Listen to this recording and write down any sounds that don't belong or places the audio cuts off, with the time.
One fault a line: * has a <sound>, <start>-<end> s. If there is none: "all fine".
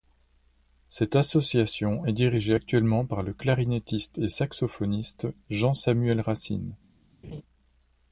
* has a laugh, 7.2-7.4 s